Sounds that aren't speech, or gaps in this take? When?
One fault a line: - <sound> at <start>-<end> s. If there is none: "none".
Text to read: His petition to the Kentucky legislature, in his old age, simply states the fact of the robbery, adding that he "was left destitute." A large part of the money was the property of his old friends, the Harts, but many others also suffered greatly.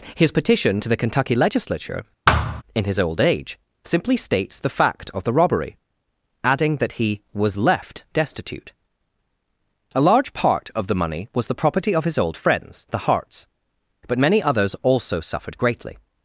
- thud at 2.3-2.6 s